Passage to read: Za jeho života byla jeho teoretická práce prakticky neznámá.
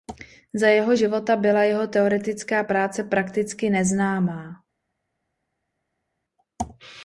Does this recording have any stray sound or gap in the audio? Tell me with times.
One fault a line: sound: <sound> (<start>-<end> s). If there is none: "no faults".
no faults